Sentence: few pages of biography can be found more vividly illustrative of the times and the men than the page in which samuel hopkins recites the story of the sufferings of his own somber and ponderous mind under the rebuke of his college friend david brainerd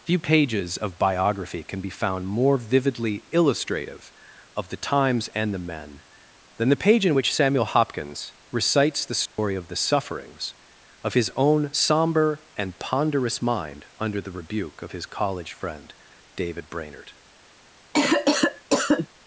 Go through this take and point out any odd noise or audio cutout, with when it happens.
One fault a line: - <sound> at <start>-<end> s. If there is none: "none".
- dropout at 9.3-9.4 s
- cough at 17.9-19.1 s